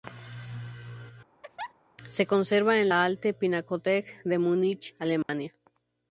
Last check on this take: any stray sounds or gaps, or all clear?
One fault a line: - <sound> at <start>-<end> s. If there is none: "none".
- laugh at 1.4-1.7 s
- dropout at 5.2-5.3 s